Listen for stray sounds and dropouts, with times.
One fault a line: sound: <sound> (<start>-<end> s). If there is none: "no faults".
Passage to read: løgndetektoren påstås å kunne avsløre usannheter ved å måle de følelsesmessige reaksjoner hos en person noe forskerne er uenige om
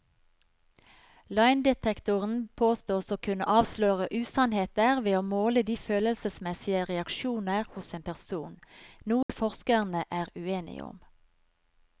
sound: dropout (9.2-9.3 s)